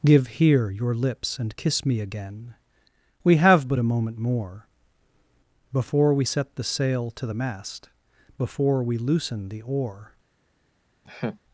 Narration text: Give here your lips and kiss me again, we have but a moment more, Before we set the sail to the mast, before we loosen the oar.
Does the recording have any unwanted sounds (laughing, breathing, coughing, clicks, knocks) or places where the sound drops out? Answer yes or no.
yes